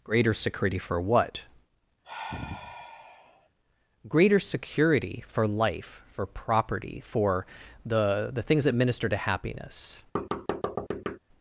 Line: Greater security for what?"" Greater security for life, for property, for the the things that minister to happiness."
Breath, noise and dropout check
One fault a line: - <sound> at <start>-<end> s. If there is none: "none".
- sigh at 2.0-3.5 s
- thud at 10.2-11.2 s